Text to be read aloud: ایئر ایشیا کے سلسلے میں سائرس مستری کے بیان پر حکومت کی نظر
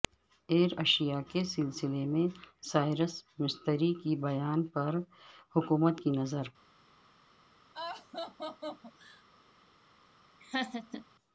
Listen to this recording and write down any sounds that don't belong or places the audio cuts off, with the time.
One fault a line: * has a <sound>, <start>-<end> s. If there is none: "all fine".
* has a laugh, 7.7-9.2 s
* has a laugh, 10.4-11.1 s